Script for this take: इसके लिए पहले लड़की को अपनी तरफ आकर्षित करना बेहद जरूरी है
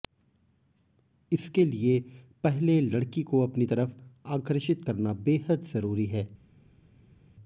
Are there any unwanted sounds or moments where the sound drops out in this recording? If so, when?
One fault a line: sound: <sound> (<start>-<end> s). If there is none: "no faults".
no faults